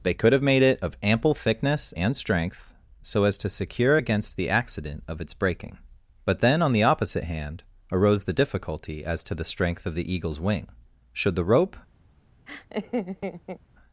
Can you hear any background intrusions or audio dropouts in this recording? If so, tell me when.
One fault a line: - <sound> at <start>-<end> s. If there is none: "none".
- laugh at 12.5-13.6 s